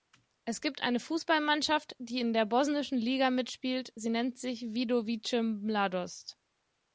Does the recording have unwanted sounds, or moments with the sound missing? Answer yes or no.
no